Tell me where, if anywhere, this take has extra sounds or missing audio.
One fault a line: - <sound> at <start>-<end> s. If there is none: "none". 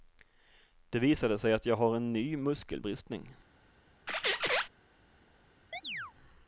- squeak at 4.1-4.7 s
- chirp at 5.7-6.1 s